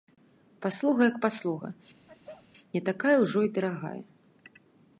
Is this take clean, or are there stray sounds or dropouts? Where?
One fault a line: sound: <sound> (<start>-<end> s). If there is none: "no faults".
sound: sneeze (2.1-2.5 s)